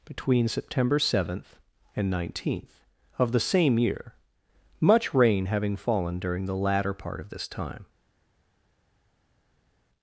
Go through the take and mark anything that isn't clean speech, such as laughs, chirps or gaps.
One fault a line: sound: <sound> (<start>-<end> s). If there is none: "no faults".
no faults